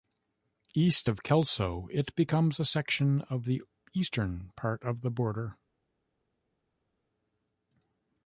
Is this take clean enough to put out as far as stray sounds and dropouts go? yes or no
yes